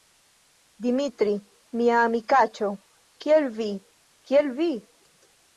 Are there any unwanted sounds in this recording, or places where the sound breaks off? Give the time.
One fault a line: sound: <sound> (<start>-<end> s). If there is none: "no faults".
no faults